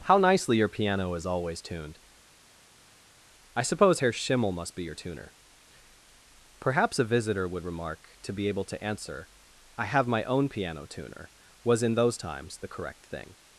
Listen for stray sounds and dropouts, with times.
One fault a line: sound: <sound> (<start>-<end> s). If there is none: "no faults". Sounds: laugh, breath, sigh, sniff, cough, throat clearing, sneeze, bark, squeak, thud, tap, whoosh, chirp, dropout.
no faults